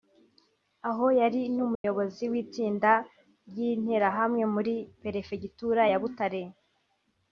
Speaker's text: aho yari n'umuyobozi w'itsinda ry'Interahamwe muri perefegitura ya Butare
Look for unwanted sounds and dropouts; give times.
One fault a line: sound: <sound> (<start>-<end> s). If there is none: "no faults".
sound: dropout (1.7-1.8 s)